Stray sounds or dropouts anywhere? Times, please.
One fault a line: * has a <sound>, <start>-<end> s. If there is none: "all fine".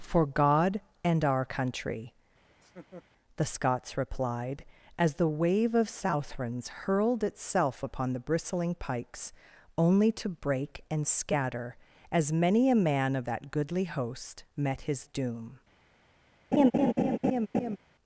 * has a laugh, 2.5-3.0 s
* has a laugh, 16.5-17.8 s